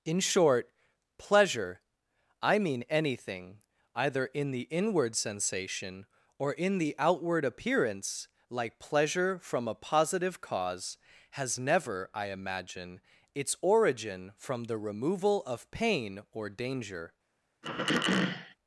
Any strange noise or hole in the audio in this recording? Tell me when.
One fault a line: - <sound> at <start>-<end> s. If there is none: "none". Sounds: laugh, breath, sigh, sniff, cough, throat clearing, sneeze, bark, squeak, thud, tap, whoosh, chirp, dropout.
- throat clearing at 17.6-18.6 s